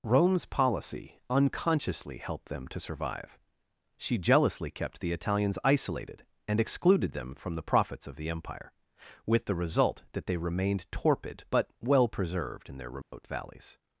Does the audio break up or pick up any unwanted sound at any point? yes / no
yes